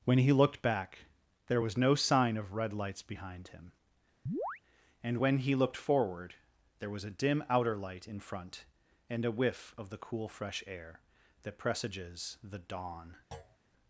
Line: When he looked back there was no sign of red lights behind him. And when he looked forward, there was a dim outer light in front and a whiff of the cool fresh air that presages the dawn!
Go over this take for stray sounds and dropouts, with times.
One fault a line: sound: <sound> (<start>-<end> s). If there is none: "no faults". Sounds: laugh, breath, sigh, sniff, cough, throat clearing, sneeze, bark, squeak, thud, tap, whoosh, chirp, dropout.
sound: chirp (4.3-4.6 s)
sound: thud (13.3-13.6 s)